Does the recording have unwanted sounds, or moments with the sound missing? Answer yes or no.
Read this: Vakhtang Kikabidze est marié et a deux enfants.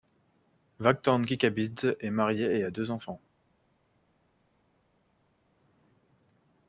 no